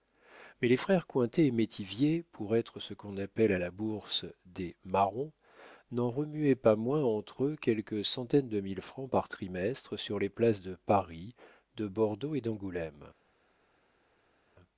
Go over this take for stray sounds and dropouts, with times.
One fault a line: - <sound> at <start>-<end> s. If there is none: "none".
none